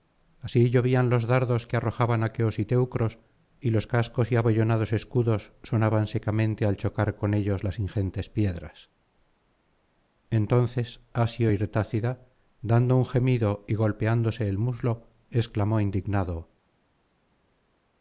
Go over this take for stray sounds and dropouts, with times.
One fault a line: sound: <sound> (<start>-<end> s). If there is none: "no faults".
no faults